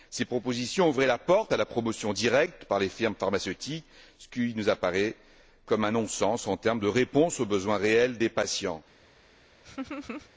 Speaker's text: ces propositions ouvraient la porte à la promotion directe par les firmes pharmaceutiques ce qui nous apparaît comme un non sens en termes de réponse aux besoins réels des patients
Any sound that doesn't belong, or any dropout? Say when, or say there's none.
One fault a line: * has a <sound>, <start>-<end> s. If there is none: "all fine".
* has a laugh, 9.6-10.3 s